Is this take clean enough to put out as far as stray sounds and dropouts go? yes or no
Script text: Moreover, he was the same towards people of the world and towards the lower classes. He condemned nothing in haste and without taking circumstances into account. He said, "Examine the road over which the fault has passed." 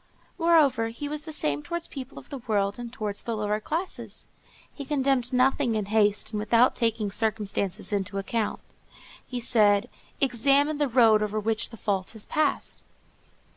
yes